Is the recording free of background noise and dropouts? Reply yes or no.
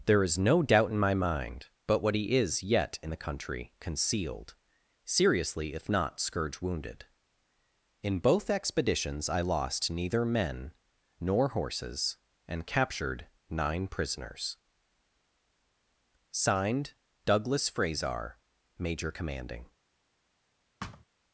no